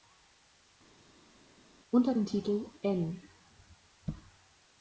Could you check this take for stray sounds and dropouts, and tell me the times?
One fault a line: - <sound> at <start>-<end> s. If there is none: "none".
none